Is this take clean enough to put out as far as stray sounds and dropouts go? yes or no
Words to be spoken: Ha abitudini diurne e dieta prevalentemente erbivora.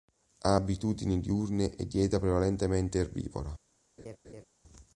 no